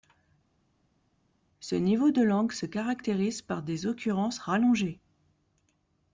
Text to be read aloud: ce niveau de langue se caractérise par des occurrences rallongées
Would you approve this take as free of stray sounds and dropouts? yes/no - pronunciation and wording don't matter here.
yes